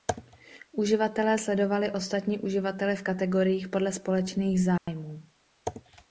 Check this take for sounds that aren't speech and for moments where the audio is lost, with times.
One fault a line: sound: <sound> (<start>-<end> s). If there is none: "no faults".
sound: dropout (4.8-4.9 s)